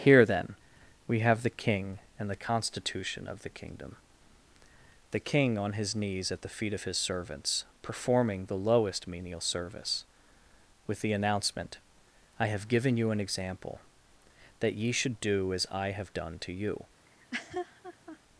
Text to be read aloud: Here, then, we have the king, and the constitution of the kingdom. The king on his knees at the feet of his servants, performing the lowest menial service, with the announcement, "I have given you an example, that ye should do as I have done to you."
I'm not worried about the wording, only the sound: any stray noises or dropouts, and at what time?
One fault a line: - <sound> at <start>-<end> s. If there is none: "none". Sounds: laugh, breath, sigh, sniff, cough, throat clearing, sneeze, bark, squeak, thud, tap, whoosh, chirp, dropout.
- laugh at 17.1-18.2 s